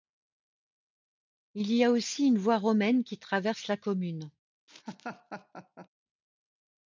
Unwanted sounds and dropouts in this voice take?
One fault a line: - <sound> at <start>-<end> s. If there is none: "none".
- laugh at 4.7-5.9 s